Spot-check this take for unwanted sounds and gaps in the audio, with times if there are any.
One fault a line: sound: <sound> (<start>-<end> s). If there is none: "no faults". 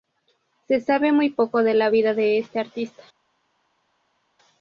no faults